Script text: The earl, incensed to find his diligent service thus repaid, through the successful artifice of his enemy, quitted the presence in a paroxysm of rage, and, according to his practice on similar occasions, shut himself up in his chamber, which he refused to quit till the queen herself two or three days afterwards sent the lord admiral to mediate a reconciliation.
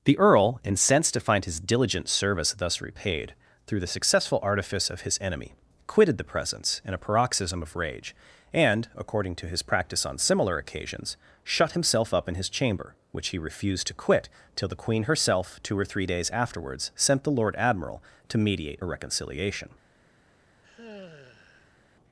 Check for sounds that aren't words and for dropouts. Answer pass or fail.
fail